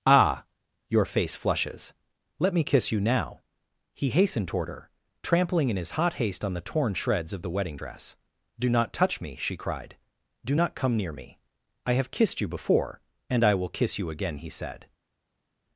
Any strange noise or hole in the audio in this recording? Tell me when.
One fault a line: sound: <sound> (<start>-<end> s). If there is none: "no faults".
no faults